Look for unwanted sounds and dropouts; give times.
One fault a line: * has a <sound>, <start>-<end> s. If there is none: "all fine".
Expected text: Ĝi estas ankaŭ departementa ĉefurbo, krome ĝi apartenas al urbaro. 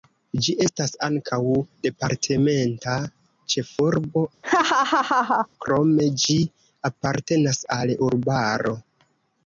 * has a laugh, 4.4-5.5 s